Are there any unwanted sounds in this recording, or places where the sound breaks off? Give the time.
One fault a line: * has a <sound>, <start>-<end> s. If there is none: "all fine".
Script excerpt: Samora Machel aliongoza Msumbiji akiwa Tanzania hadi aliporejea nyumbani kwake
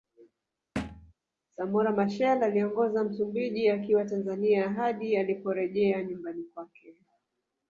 * has a thud, 0.8-1.1 s